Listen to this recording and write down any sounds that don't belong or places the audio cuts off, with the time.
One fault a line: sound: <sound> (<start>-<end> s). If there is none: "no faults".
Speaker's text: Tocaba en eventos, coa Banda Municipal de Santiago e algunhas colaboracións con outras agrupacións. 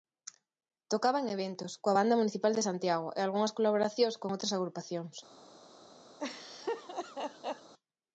sound: laugh (6.2-7.7 s)